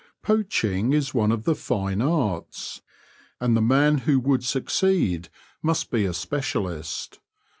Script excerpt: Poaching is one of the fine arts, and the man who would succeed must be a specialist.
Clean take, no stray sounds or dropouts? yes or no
yes